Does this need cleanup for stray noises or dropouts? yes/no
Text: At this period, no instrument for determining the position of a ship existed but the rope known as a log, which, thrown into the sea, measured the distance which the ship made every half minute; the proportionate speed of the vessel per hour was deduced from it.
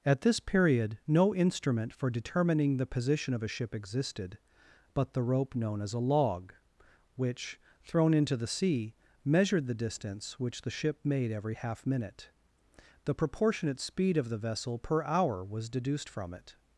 no